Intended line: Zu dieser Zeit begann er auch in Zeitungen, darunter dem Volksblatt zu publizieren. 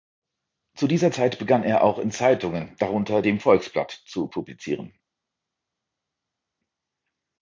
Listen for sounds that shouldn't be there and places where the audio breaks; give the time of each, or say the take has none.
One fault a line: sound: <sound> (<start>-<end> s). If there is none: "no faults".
no faults